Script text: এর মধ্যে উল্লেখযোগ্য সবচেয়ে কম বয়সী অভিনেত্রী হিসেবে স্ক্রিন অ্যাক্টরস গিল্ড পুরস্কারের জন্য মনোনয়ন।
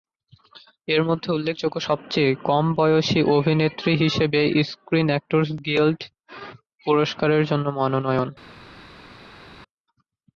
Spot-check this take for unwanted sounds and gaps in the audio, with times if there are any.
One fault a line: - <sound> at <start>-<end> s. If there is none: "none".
none